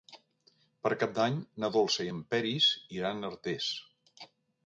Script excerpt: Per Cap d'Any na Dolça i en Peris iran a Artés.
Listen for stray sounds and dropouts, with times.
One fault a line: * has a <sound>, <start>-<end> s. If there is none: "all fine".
all fine